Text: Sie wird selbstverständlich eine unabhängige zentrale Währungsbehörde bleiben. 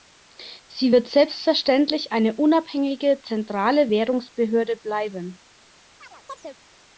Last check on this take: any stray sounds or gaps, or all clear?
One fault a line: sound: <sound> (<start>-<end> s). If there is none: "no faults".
sound: chirp (6.0-6.6 s)